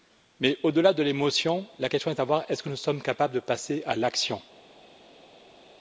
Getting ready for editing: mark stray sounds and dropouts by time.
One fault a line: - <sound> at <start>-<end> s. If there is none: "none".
none